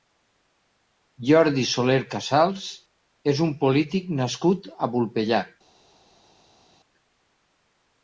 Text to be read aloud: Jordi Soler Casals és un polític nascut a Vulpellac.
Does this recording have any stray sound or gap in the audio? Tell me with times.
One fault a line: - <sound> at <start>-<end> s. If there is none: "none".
none